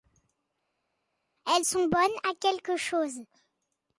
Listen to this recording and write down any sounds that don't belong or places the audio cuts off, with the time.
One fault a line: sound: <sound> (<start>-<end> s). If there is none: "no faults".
no faults